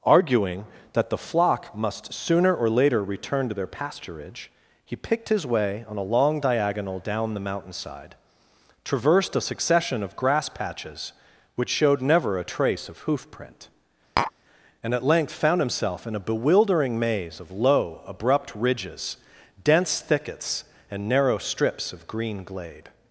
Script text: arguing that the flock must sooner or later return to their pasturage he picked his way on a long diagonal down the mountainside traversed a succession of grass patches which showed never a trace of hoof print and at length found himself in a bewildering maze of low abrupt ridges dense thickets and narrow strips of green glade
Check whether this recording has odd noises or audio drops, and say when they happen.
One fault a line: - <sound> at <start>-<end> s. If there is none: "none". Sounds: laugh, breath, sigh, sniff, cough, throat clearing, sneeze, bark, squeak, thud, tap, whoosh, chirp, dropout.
- tap at 14.2-14.3 s